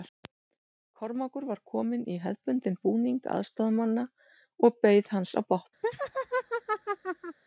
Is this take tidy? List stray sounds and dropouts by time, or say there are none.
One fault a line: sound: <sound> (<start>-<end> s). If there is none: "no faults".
sound: laugh (5.8-7.4 s)